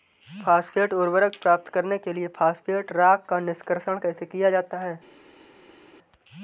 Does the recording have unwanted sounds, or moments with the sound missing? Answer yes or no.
no